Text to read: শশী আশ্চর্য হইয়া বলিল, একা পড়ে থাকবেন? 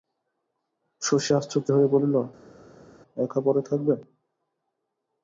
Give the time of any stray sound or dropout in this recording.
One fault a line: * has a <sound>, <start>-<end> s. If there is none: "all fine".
all fine